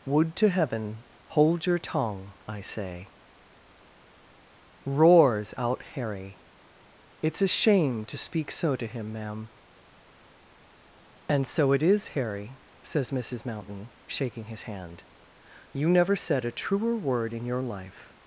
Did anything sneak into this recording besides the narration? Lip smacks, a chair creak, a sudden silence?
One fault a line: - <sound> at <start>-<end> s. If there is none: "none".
none